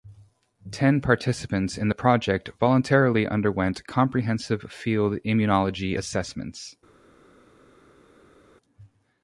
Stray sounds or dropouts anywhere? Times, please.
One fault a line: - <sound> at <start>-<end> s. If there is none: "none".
none